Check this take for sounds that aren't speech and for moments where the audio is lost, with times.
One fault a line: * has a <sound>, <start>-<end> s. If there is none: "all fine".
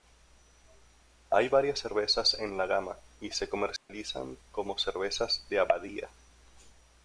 * has a dropout, 3.8-3.9 s